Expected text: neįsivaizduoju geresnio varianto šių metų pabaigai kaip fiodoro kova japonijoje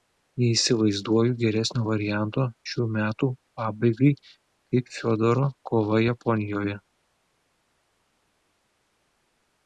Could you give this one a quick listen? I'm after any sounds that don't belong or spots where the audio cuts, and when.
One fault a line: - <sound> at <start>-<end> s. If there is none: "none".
none